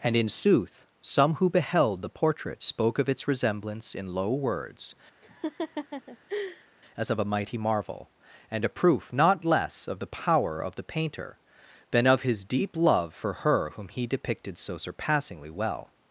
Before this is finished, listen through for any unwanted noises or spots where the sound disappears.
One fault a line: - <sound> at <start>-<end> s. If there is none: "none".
- laugh at 5.2-6.7 s